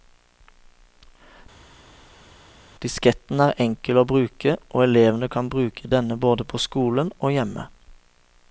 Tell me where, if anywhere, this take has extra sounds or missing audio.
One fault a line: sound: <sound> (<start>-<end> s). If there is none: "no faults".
no faults